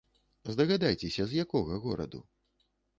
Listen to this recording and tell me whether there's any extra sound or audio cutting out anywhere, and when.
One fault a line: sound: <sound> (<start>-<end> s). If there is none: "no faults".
no faults